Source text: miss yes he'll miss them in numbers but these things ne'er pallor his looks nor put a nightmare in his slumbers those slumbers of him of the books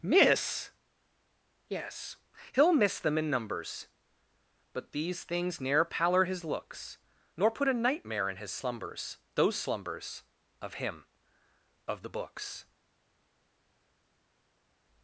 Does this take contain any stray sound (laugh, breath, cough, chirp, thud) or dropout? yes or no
no